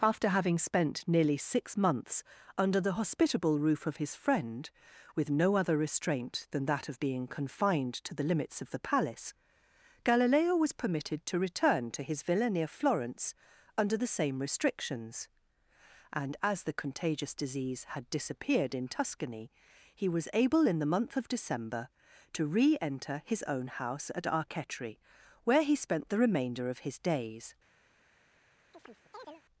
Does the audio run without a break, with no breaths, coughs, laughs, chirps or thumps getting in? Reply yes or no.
no